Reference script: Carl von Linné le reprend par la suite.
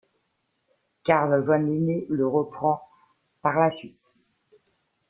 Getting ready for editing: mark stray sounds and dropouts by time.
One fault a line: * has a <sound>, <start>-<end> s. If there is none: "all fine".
all fine